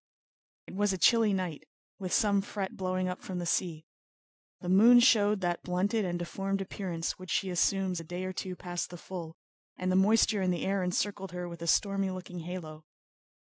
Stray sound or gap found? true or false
false